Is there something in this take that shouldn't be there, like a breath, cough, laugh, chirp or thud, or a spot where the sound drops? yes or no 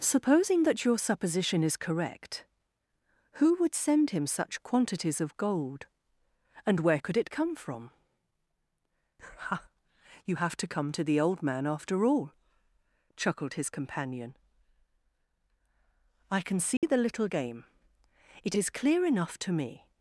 yes